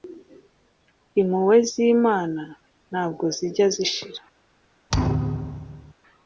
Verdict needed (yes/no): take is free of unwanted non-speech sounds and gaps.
no